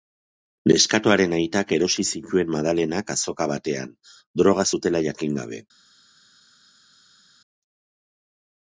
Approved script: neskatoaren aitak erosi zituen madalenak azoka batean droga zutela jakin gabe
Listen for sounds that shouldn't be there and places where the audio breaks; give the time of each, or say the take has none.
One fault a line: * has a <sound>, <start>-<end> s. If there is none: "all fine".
all fine